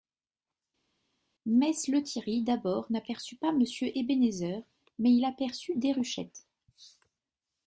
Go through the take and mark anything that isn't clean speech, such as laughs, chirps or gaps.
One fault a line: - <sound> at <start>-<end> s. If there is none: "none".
none